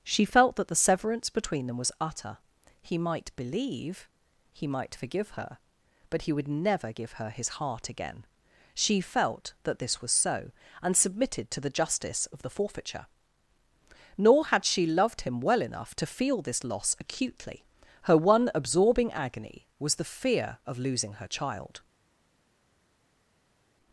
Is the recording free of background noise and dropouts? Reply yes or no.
yes